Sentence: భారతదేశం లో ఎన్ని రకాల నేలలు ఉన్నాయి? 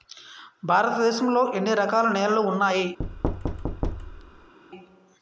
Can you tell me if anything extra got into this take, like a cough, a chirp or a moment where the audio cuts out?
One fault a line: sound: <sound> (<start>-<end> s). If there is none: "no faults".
sound: thud (3.0-4.5 s)